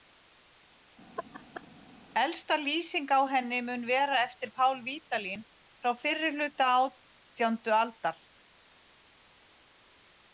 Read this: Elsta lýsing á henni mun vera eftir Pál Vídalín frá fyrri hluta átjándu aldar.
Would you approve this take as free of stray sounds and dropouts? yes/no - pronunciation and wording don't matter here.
no